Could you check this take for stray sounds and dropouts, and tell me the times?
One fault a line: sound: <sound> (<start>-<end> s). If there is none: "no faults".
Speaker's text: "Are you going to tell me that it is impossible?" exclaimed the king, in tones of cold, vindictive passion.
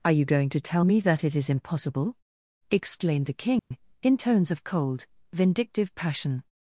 sound: dropout (3.6-3.7 s)